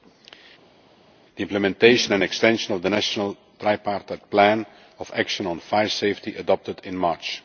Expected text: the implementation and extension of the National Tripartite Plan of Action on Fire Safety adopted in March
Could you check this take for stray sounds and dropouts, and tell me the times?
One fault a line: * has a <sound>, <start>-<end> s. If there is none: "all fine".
all fine